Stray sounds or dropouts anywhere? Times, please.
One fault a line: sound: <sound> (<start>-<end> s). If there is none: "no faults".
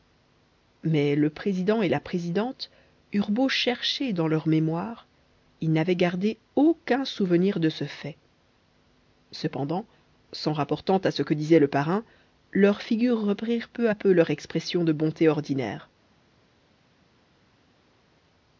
no faults